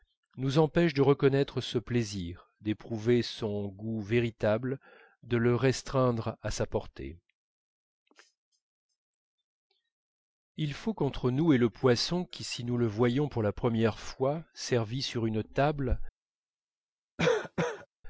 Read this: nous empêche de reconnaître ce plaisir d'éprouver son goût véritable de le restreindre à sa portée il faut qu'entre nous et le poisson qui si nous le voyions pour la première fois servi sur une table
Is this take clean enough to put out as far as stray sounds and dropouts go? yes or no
no